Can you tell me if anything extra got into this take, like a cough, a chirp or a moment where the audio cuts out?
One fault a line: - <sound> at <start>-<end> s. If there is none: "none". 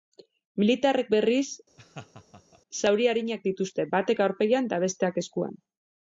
- laugh at 1.8-2.6 s